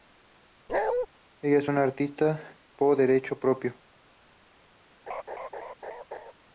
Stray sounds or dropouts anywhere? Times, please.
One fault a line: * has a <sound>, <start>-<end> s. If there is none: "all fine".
* has a bark, 0.7-1.1 s
* has a laugh, 5.1-6.3 s